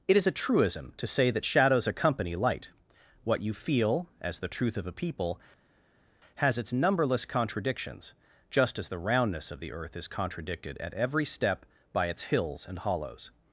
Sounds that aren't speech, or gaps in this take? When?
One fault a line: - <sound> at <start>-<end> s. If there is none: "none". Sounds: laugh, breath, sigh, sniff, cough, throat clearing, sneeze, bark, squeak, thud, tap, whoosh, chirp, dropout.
none